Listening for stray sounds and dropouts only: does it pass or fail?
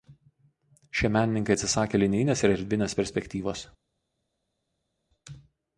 pass